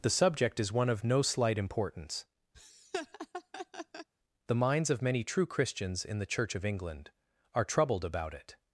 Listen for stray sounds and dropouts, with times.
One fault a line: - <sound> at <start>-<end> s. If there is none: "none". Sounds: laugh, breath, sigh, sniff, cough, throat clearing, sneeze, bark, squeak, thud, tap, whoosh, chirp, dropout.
- laugh at 2.5-4.1 s